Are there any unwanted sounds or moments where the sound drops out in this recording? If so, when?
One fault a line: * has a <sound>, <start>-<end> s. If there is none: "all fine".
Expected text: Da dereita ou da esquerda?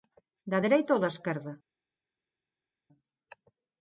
all fine